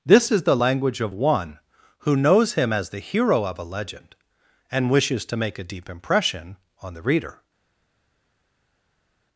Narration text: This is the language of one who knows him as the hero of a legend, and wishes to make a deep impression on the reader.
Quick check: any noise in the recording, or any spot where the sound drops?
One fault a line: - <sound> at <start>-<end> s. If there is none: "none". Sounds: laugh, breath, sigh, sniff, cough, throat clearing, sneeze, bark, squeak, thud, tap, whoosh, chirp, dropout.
none